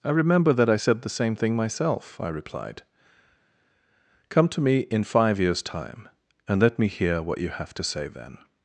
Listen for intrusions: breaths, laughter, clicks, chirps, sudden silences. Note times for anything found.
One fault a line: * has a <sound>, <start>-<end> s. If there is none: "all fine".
all fine